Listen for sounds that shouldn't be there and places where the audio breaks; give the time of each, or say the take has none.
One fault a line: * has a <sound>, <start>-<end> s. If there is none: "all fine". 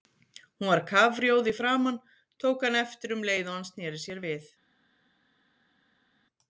all fine